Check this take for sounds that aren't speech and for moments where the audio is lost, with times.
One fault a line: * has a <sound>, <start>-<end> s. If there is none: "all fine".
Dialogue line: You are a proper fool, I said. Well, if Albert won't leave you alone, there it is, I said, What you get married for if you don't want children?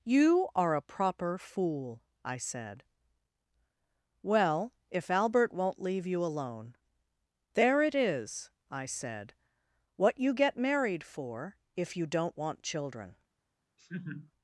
* has a laugh, 13.8-14.3 s